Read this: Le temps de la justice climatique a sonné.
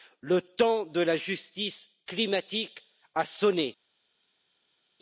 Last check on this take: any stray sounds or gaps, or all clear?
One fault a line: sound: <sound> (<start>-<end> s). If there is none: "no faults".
no faults